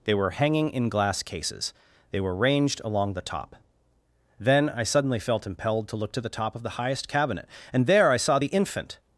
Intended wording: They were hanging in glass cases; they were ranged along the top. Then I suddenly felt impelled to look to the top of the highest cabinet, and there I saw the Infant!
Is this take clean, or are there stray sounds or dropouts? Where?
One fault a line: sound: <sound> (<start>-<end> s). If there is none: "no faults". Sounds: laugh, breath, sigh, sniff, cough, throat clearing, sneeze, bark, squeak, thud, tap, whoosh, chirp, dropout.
no faults